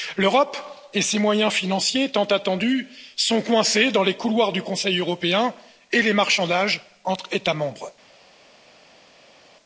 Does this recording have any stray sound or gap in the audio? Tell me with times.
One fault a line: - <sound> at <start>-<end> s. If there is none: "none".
none